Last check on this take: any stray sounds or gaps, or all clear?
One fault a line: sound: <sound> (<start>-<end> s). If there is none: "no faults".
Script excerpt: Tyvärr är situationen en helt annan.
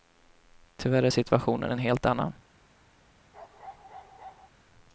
sound: bark (3.3-4.5 s)